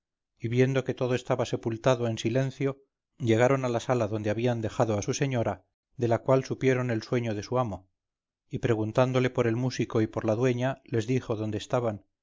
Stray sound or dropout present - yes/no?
no